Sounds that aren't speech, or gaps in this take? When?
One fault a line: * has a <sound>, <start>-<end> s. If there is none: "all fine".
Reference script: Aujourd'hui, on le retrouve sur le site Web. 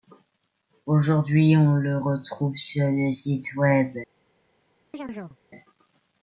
* has a chirp, 4.9-5.4 s